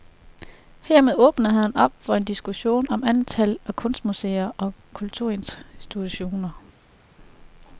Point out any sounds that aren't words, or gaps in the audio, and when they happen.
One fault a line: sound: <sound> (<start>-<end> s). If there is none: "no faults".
no faults